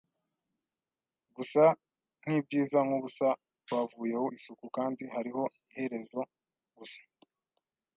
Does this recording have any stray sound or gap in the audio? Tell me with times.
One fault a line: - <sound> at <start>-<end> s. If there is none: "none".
none